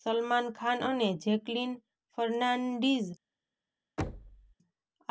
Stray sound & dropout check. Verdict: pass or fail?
fail